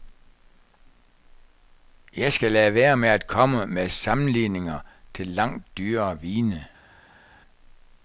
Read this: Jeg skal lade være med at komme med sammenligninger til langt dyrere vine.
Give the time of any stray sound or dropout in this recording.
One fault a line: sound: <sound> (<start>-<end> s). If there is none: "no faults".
no faults